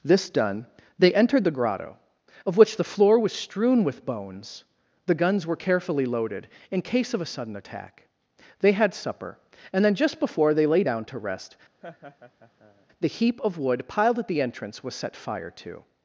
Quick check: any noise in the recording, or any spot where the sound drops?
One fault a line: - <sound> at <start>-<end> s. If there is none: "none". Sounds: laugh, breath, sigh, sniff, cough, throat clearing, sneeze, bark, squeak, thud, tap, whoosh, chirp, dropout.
- laugh at 11.8-12.9 s